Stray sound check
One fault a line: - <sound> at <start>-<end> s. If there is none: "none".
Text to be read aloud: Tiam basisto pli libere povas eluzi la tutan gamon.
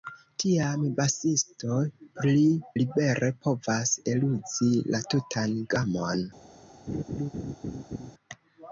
- laugh at 6.9-8.1 s